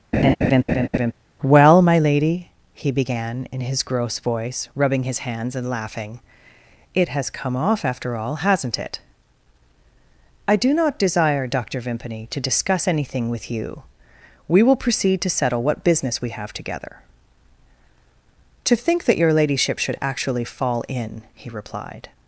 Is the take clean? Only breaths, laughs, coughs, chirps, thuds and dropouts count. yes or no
no